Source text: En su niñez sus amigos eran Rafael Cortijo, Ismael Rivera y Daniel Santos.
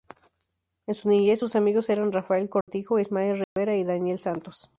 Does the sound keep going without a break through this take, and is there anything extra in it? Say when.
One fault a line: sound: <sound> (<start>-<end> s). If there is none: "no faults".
sound: dropout (2.6-2.7 s)
sound: dropout (3.4-3.6 s)